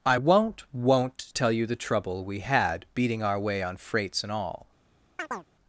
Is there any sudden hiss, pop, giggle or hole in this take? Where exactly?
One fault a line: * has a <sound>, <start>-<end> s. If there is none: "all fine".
* has a chirp, 5.2-5.5 s